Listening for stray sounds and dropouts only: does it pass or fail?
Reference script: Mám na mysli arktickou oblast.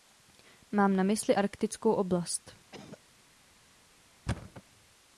fail